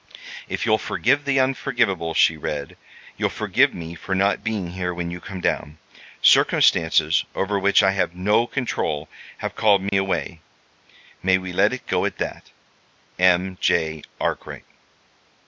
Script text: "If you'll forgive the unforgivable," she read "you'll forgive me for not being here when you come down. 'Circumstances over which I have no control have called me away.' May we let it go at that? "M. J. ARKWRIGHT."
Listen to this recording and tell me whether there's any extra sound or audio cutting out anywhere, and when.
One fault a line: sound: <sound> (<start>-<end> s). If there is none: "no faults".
sound: dropout (9.9-9.9 s)